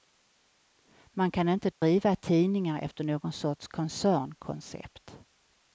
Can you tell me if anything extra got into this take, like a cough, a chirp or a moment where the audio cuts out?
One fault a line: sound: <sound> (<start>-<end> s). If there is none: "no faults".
sound: dropout (1.7-1.8 s)